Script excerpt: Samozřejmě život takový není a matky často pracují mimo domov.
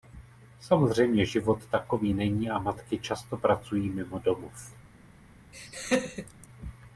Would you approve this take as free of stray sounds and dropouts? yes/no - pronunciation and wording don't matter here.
no